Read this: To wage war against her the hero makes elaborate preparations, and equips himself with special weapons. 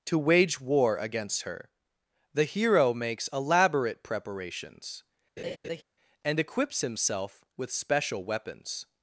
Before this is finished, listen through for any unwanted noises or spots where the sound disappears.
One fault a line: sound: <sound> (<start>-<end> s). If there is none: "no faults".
sound: laugh (5.4-5.8 s)